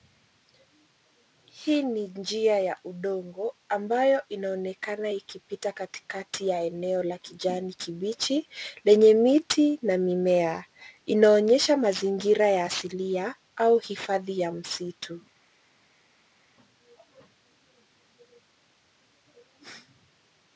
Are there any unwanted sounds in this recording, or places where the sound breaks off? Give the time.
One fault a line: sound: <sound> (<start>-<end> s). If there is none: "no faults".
no faults